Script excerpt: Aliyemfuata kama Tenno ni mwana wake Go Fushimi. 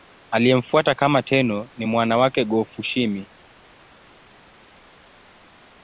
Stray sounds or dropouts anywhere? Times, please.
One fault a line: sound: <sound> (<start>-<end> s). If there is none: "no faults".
no faults